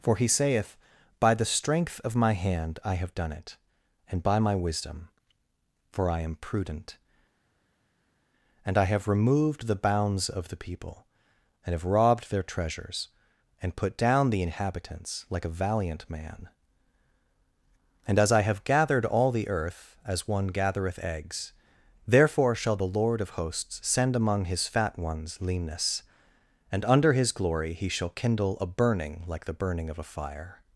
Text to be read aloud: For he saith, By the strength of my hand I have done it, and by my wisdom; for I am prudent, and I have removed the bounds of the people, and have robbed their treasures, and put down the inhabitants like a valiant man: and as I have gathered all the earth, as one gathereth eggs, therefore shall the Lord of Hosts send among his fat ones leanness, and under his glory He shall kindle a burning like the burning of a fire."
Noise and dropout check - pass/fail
pass